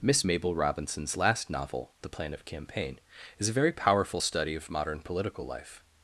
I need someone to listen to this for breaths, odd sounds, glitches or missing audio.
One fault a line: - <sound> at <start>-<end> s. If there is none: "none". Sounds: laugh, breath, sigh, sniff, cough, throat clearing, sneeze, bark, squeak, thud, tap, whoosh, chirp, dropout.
none